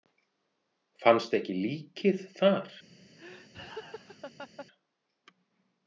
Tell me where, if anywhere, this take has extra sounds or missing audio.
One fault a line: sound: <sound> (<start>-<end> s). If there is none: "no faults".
sound: laugh (3.2-4.7 s)